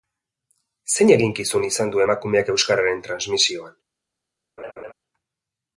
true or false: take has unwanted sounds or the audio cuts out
true